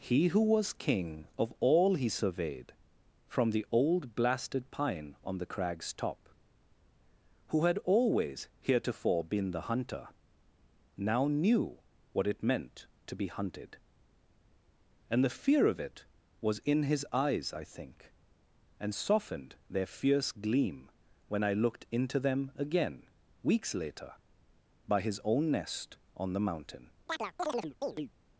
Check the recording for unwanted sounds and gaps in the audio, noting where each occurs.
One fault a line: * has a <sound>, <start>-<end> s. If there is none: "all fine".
* has a chirp, 27.1-28.1 s